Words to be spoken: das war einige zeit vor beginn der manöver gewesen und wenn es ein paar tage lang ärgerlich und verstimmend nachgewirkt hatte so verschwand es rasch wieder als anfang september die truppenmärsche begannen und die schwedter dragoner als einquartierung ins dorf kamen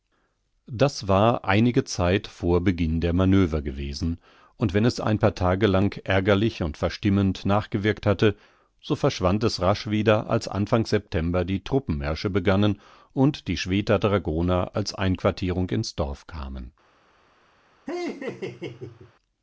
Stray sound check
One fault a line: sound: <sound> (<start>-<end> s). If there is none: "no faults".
sound: laugh (17.9-19.1 s)